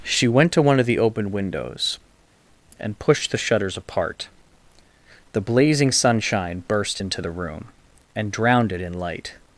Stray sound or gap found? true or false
false